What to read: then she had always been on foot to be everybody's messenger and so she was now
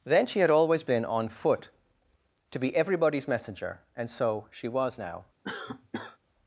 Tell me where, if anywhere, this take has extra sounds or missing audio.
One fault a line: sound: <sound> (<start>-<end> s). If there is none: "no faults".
sound: cough (5.4-6.2 s)